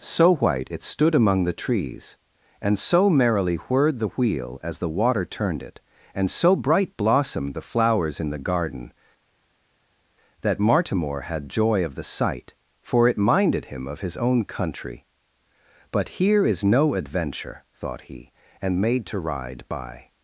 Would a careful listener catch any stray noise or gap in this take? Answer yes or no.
no